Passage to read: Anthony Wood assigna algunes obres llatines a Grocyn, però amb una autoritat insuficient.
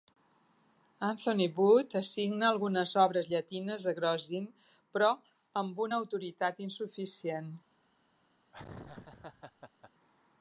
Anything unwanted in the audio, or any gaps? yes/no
yes